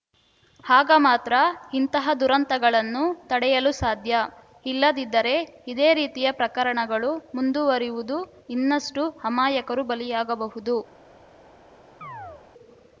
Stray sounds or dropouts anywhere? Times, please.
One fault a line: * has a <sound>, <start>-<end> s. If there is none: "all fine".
* has a chirp, 12.0-12.4 s